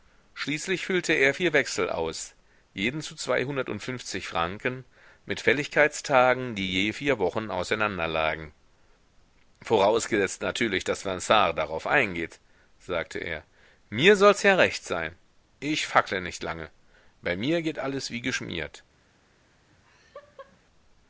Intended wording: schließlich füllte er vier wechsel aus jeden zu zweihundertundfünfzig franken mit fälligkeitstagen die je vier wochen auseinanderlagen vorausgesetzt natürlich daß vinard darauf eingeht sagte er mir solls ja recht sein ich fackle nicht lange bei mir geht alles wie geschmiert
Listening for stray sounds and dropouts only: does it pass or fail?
fail